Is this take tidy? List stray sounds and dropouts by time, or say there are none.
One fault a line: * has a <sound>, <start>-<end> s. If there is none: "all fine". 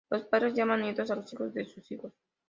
all fine